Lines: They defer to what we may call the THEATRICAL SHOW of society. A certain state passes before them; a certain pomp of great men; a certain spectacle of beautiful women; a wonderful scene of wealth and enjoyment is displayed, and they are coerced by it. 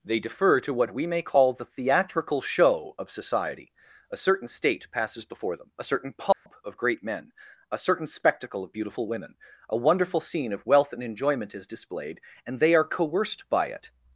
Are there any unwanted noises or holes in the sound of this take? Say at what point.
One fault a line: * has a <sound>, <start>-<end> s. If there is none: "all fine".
* has a dropout, 6.3-6.5 s